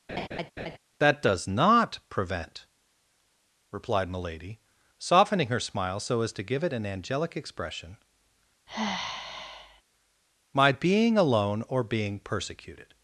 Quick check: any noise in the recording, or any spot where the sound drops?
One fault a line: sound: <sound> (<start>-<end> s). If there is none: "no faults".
sound: laugh (0.1-0.8 s)
sound: sigh (8.7-9.8 s)